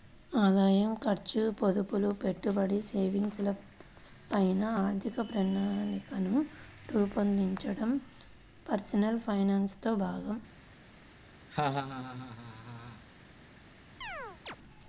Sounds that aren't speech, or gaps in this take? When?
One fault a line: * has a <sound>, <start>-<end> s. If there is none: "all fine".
* has a laugh, 11.5-13.0 s
* has a chirp, 14.0-14.6 s